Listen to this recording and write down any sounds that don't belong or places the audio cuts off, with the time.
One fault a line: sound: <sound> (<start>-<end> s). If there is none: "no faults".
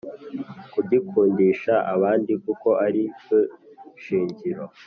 no faults